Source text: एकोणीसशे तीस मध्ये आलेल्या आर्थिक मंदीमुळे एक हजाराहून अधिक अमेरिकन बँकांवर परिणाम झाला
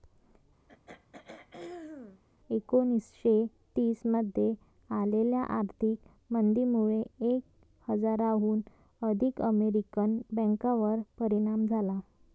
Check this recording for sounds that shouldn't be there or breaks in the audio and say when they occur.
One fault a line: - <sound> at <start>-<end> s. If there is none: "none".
- throat clearing at 0.7-2.2 s